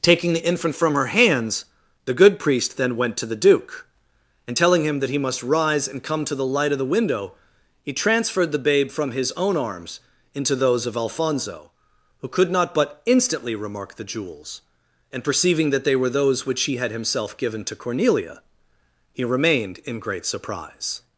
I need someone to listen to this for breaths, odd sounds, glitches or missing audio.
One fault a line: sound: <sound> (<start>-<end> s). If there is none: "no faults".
no faults